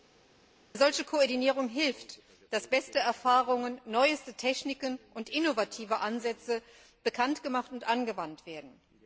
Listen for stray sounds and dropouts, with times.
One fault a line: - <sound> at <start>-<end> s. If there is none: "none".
none